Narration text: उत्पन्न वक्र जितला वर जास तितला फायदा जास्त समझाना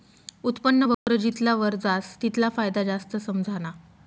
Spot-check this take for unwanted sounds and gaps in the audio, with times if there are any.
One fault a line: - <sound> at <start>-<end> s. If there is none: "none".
- dropout at 0.9-1.1 s